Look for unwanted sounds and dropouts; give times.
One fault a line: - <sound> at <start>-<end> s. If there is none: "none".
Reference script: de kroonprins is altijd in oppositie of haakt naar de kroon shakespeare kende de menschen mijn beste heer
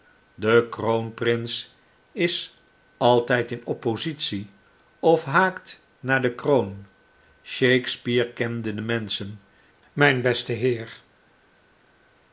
none